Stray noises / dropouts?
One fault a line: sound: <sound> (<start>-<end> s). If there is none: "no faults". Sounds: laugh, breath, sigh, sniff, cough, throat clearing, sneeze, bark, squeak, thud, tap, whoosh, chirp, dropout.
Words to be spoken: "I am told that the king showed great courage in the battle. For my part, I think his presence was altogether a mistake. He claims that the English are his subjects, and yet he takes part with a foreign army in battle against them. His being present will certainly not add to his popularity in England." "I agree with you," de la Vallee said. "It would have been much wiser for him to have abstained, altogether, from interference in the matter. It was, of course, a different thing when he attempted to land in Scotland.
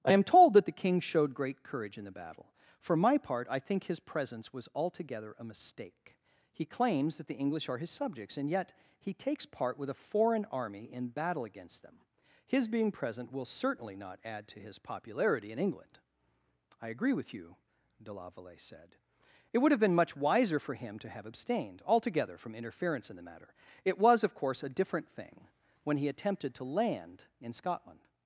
no faults